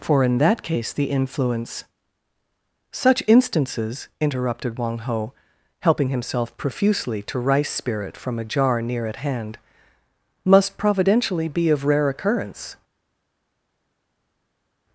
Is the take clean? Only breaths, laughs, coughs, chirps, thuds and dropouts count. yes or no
yes